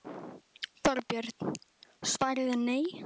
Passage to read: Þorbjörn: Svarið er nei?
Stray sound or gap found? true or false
false